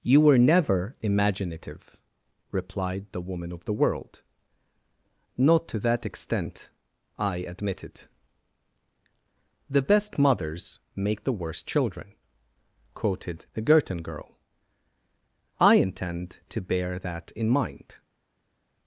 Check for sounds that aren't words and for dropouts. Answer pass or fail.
pass